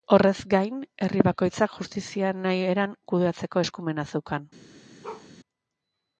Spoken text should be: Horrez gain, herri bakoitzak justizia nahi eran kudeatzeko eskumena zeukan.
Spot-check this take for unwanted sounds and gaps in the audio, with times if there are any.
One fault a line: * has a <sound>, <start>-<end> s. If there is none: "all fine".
* has a bark, 5.0-5.3 s